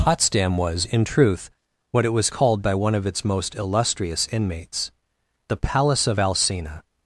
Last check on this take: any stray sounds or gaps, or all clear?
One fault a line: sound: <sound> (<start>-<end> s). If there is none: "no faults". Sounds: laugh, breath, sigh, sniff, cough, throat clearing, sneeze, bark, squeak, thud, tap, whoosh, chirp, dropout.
no faults